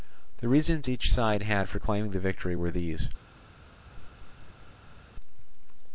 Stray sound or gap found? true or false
true